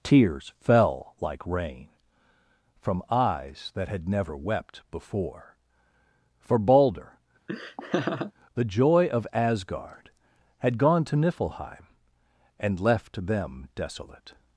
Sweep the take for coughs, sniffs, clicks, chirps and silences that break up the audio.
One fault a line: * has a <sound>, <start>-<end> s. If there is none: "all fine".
* has a laugh, 7.5-8.3 s